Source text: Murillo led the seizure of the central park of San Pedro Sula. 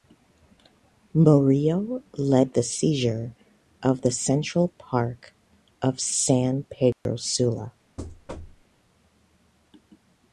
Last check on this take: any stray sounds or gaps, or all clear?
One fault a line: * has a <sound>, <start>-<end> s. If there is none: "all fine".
* has a dropout, 6.9-7.1 s
* has a thud, 8.0-8.6 s